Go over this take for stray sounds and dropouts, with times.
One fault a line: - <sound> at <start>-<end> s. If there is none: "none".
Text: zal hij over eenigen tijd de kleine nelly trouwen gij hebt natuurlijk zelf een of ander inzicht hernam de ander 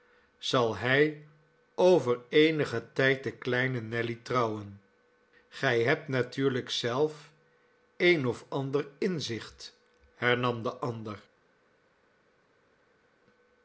none